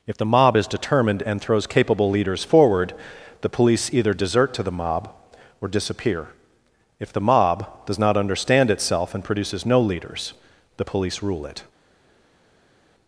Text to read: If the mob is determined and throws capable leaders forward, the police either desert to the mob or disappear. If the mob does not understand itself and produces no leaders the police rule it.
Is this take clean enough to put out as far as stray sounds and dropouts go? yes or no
yes